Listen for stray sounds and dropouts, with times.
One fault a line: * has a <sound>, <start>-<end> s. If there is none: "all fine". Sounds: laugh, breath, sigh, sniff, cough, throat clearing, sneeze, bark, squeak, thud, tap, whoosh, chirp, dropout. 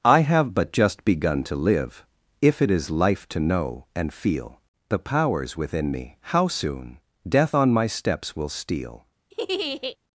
* has a laugh, 9.3-10.0 s